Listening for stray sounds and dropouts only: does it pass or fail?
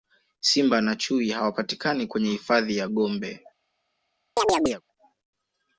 fail